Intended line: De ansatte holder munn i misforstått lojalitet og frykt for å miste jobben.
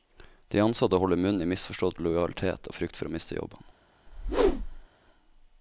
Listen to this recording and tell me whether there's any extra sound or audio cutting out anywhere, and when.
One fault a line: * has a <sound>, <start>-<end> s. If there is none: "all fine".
* has a whoosh, 4.1-4.9 s